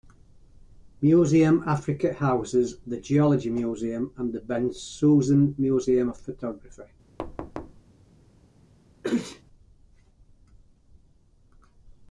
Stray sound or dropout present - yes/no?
yes